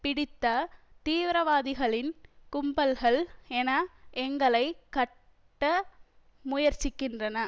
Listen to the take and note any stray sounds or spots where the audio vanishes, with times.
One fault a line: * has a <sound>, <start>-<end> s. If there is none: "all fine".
all fine